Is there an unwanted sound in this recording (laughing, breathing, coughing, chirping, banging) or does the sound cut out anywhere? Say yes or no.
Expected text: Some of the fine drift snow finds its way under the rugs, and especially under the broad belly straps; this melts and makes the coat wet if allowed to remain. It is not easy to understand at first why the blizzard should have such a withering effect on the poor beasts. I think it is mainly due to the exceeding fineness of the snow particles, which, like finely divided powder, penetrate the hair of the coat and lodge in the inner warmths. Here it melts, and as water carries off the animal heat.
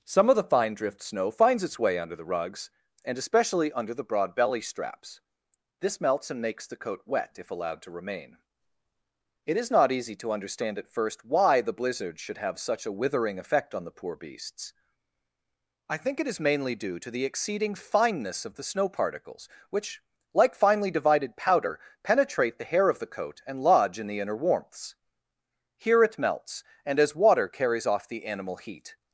no